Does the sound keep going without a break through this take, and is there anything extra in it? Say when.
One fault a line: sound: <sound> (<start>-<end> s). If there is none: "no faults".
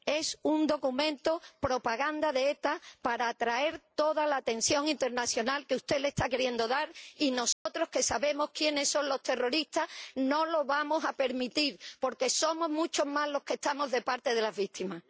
sound: dropout (7.5-7.7 s)